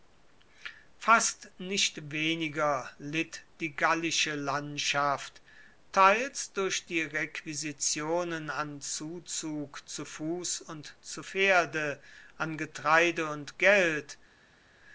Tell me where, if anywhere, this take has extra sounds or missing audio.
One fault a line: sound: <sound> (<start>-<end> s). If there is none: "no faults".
no faults